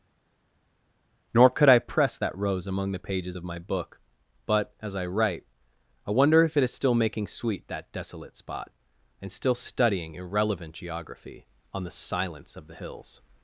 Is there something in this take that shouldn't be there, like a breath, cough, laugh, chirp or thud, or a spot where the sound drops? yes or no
no